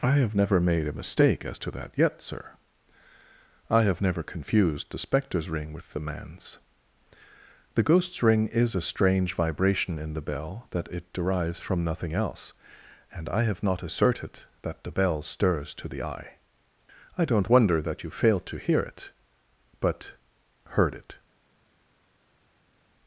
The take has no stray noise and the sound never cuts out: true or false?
true